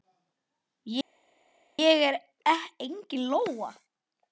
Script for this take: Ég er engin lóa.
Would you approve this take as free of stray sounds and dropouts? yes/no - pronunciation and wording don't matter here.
yes